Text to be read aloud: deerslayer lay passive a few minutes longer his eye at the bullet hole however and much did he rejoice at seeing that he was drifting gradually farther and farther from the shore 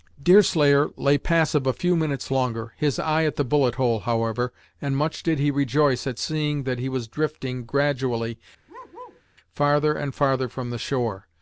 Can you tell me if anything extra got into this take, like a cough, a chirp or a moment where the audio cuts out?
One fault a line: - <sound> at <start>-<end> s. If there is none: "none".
- bark at 8.7-9.2 s